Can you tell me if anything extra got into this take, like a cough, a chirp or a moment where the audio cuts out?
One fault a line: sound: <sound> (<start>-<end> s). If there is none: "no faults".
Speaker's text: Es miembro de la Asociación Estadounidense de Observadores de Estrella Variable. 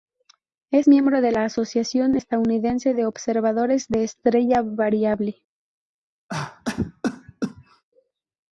sound: cough (6.3-7.8 s)